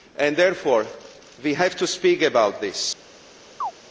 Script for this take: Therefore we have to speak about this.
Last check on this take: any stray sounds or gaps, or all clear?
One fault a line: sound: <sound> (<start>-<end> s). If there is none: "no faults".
sound: chirp (3.6-3.7 s)